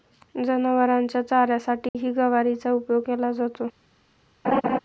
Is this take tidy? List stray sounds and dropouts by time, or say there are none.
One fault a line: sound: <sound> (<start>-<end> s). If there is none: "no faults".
sound: dropout (1.9-1.9 s)
sound: laugh (4.4-4.8 s)